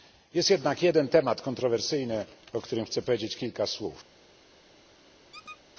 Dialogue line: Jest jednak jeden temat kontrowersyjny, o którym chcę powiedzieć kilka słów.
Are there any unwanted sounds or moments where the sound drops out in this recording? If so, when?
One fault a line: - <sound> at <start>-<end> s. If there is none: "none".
- squeak at 5.3-5.6 s